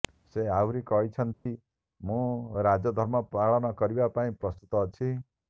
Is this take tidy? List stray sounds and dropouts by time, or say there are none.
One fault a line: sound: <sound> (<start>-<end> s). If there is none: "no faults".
sound: dropout (1.3-1.5 s)